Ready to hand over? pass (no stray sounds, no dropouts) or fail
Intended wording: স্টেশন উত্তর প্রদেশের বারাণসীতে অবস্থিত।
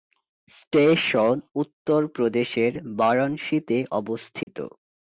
fail